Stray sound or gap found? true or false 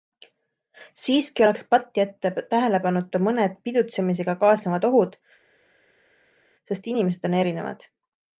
false